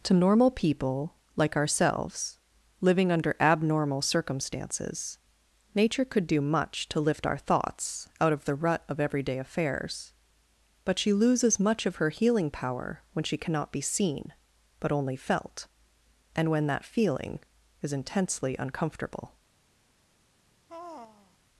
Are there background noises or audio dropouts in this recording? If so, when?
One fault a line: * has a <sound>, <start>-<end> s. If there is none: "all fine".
* has a sigh, 20.7-21.4 s